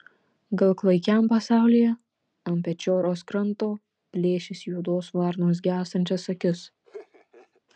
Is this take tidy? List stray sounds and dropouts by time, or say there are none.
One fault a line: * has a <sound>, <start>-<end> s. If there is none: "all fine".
* has a laugh, 6.8-7.6 s